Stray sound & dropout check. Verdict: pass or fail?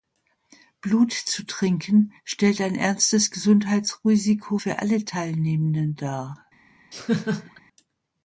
fail